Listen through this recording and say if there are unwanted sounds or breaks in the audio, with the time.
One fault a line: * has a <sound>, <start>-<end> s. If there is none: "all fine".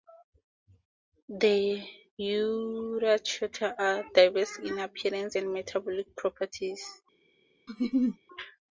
* has a laugh, 7.7-8.2 s